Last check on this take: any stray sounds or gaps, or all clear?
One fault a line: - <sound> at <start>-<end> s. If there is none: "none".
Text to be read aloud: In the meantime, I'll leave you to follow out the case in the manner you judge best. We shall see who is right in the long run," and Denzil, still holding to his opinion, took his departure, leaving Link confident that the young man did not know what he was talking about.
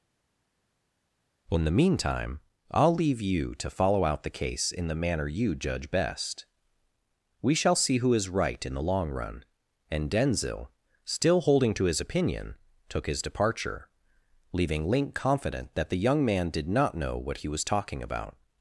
none